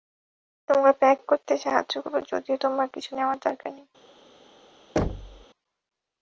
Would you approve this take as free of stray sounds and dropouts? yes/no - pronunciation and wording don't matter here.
no